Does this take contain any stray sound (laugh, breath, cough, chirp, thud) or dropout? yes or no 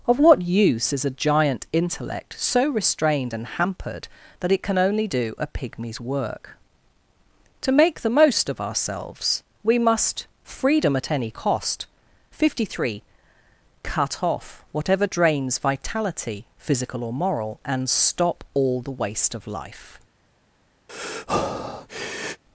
yes